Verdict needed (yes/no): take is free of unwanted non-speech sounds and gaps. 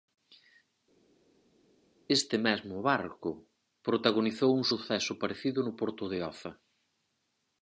yes